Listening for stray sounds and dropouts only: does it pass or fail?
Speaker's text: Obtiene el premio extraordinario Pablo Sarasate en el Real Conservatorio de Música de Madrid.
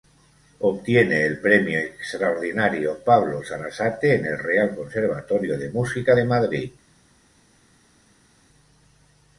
pass